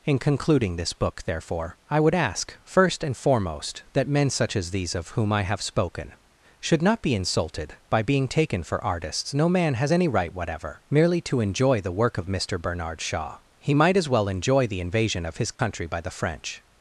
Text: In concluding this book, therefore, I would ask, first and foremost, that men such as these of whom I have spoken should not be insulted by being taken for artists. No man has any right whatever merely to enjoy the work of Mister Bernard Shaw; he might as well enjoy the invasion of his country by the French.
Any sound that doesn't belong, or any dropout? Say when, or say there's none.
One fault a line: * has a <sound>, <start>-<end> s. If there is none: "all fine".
* has a dropout, 15.6-15.6 s